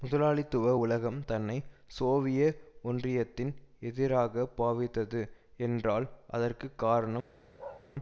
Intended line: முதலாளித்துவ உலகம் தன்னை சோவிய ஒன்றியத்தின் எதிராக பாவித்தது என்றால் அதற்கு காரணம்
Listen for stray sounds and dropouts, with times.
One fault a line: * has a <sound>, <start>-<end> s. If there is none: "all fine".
* has a bark, 7.6-7.8 s